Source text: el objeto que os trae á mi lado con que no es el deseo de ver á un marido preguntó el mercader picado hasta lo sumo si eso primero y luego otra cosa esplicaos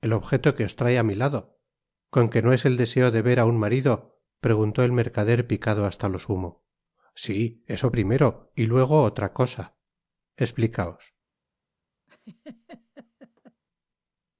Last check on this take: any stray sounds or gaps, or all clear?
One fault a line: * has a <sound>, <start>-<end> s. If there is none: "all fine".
* has a laugh, 12.1-13.6 s